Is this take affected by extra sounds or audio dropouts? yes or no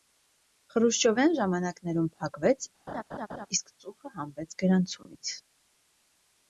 yes